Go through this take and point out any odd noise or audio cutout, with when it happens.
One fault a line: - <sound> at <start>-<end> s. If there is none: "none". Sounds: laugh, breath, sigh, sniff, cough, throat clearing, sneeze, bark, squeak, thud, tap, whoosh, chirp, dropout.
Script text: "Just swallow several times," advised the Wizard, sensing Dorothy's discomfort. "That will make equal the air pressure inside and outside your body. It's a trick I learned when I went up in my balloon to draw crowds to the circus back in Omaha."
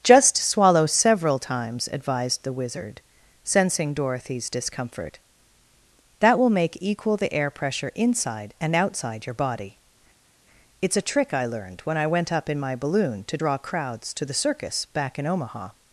none